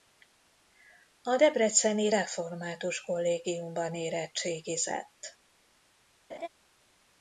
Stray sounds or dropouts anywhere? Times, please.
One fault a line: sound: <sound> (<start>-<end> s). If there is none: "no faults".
sound: laugh (6.3-6.5 s)